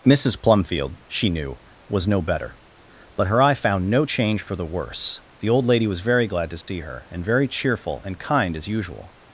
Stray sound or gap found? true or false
true